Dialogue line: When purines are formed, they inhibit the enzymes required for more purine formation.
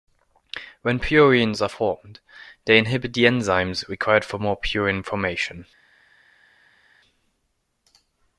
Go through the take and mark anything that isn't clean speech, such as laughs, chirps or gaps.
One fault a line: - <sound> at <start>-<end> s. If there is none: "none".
none